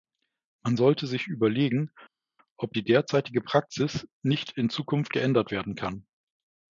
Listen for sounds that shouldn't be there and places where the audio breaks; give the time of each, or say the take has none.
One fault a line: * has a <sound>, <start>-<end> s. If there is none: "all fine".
all fine